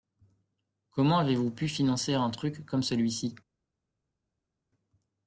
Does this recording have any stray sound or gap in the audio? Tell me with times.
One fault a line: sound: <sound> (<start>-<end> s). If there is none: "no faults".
no faults